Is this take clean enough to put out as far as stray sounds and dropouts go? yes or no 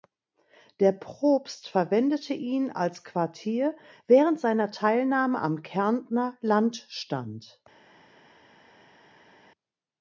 yes